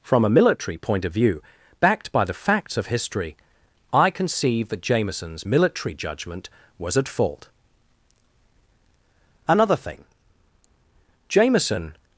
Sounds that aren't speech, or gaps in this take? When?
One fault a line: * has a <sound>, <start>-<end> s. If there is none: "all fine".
all fine